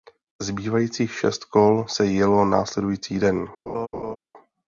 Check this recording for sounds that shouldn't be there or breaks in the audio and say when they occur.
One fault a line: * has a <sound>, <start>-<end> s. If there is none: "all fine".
* has a laugh, 3.7-4.2 s